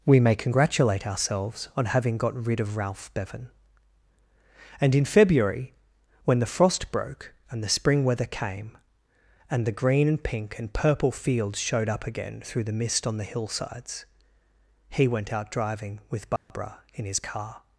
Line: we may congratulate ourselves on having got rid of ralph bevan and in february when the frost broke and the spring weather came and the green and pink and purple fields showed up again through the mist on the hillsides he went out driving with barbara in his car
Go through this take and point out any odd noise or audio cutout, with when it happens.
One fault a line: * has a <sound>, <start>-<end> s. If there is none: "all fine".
* has a dropout, 16.4-16.5 s